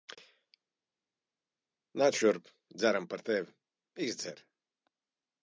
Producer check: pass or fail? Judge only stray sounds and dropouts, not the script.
pass